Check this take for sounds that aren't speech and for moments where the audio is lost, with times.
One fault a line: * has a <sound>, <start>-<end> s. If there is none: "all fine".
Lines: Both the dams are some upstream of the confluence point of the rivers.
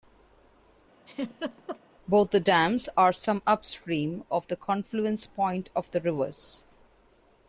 * has a laugh, 1.1-1.8 s